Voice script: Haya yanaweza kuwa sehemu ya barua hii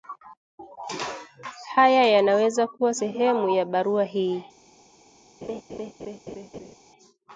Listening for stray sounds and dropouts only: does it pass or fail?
fail